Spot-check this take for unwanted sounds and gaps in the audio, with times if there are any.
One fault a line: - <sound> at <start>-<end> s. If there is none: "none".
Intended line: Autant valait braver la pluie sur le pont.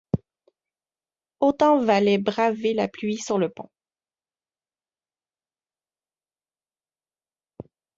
none